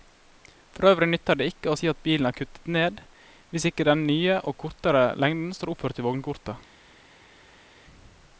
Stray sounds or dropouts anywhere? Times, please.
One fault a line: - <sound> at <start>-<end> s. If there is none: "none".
none